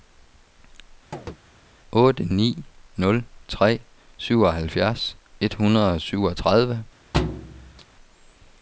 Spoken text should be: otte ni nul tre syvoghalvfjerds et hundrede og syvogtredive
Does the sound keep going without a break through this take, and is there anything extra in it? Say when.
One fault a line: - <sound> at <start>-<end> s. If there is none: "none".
- chirp at 1.1-1.4 s
- thud at 7.1-7.9 s